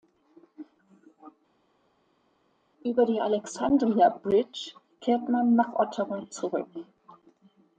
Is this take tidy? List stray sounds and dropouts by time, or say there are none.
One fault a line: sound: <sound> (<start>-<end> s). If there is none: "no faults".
no faults